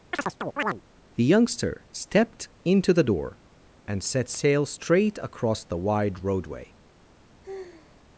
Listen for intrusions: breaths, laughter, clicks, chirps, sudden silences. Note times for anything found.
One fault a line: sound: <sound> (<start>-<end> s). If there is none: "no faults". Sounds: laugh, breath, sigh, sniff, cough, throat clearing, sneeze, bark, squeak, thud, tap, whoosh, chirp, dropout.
sound: chirp (0.1-0.8 s)
sound: sigh (7.4-8.0 s)